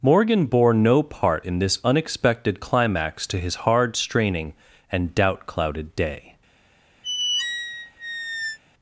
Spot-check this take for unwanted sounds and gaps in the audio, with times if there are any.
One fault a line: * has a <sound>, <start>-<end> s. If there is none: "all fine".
* has a squeak, 7.0-8.6 s